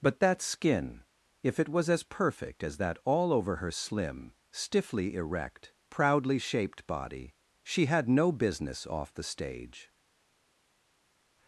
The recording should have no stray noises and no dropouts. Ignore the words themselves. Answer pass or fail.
pass